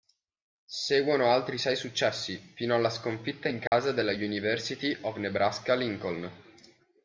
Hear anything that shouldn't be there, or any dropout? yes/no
yes